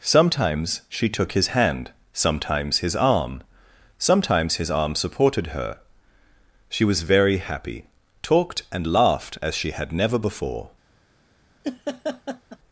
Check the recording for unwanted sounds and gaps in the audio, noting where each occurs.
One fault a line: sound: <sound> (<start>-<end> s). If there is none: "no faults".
sound: laugh (11.6-12.6 s)